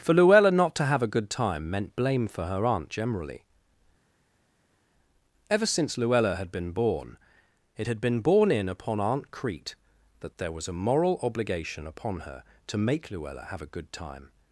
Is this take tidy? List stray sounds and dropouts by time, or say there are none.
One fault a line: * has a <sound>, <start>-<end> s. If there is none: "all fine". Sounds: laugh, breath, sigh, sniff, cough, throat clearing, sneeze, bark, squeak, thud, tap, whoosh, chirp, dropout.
all fine